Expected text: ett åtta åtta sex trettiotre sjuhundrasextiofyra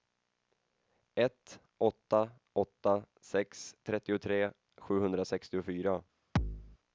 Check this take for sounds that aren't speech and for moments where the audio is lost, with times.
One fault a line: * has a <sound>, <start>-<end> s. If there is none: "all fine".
* has a thud, 6.4-6.8 s